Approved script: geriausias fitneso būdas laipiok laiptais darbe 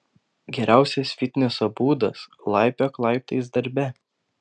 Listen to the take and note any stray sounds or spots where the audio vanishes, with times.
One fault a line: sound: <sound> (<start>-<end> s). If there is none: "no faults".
no faults